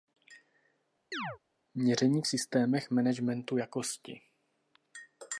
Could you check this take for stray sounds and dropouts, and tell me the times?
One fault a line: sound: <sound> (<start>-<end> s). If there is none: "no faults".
sound: chirp (1.1-1.4 s)